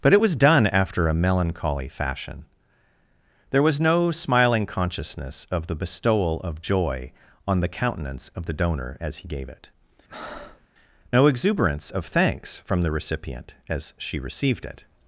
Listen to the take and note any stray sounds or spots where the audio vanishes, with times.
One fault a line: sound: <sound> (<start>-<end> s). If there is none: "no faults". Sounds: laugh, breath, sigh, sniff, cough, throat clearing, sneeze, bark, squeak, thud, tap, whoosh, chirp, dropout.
sound: breath (10.1-10.7 s)